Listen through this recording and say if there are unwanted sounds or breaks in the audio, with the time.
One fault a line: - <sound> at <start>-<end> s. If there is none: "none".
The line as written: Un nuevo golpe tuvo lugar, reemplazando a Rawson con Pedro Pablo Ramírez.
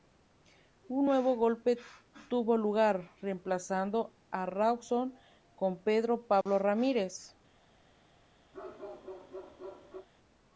- dropout at 6.4-6.5 s
- bark at 8.5-10.1 s